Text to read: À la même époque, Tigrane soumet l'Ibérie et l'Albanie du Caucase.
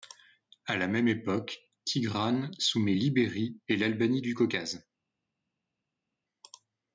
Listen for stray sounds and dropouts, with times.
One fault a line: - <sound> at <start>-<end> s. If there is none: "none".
none